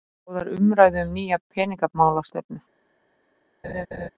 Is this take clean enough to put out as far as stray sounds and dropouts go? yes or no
no